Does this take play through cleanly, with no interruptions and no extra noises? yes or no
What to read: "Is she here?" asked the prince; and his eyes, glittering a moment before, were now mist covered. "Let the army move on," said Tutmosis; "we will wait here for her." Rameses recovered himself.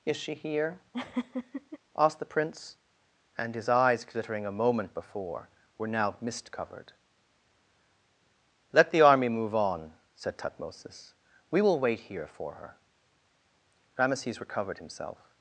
no